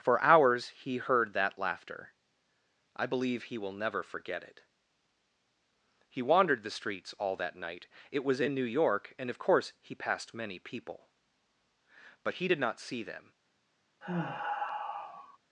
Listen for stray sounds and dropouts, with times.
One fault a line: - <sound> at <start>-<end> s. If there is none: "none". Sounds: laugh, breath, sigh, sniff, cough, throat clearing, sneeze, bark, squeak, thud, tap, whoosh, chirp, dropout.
- sigh at 14.0-15.4 s